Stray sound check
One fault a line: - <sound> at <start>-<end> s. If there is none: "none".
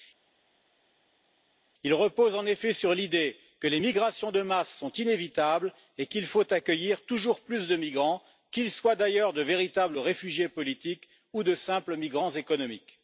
none